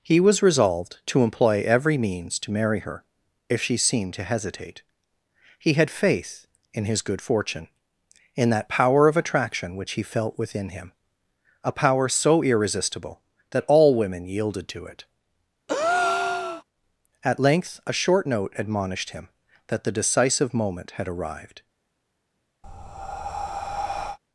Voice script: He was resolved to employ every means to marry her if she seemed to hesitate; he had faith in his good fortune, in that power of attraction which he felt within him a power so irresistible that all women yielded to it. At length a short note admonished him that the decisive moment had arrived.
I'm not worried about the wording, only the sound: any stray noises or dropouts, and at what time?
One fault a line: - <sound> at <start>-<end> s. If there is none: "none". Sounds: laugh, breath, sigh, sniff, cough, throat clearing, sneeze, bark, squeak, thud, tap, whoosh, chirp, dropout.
- breath at 15.7-16.6 s
- breath at 22.6-24.2 s